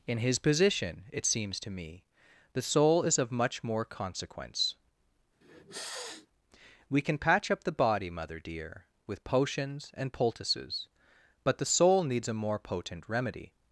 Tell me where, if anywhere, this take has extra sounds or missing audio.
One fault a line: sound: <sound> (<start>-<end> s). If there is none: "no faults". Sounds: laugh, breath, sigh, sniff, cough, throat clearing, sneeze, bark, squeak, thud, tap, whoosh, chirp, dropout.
sound: sniff (5.4-6.3 s)